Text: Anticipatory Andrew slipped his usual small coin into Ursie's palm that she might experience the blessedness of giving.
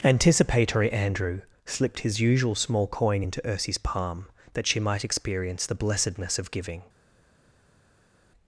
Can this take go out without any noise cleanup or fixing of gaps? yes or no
yes